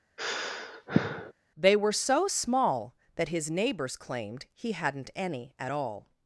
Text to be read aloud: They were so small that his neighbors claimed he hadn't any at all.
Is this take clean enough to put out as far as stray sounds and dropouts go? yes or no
no